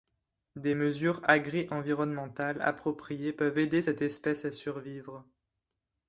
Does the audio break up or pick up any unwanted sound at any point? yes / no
no